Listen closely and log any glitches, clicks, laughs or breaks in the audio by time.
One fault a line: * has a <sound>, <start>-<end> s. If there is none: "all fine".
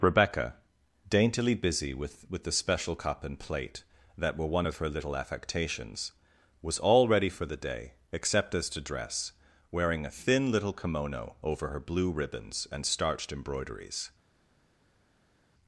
all fine